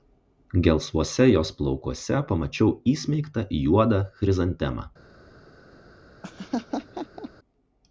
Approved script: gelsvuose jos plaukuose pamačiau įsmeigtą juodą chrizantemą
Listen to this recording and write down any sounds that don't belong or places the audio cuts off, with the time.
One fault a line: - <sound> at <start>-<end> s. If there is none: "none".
- laugh at 6.2-7.3 s